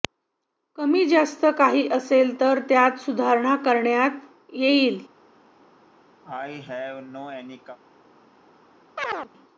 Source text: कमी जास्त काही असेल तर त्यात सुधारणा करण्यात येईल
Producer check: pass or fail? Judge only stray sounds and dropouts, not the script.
fail